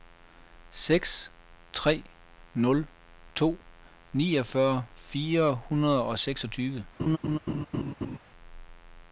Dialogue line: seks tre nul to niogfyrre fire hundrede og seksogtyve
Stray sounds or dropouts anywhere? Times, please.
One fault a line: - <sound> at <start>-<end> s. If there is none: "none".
- laugh at 7.0-8.2 s